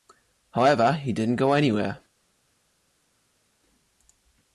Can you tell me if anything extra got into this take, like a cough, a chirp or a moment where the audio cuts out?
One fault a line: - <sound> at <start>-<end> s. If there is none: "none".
none